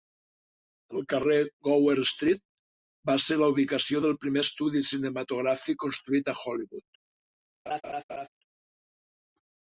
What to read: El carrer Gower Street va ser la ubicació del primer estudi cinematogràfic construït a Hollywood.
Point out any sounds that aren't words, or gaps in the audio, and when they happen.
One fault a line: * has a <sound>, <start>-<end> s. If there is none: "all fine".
* has a laugh, 7.7-8.3 s